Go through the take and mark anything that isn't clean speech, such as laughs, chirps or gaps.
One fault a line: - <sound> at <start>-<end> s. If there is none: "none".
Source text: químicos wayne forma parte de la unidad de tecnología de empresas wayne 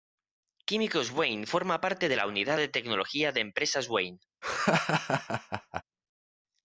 - laugh at 4.4-5.8 s